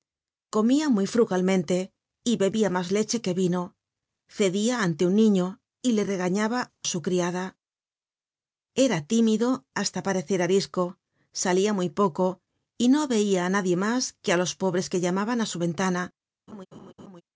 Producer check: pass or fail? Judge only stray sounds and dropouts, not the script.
fail